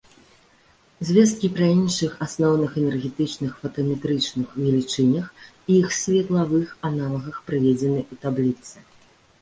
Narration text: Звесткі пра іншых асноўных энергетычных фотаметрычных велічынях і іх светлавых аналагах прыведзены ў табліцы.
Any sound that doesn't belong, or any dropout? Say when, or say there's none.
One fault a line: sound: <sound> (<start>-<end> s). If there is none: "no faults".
no faults